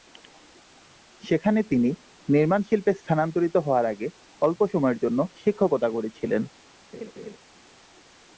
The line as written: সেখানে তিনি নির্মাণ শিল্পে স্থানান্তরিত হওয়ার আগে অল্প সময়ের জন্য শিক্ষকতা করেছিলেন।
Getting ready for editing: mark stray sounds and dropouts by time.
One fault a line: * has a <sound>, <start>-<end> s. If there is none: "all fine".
* has a laugh, 6.9-7.4 s